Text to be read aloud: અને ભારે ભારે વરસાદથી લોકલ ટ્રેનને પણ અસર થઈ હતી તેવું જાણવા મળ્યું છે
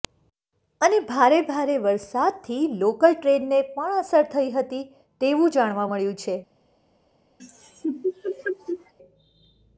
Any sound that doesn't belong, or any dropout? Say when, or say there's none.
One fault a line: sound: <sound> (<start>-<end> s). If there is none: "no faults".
sound: laugh (7.4-8.9 s)